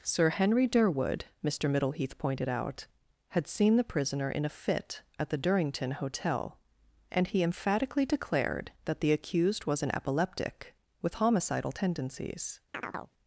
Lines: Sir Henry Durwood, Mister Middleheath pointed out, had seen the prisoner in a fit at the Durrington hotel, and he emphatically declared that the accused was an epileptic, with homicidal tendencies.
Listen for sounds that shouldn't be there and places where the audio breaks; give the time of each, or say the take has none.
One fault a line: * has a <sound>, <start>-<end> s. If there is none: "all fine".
* has a chirp, 12.7-13.1 s